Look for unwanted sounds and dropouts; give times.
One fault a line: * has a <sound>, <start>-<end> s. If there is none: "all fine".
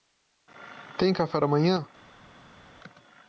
all fine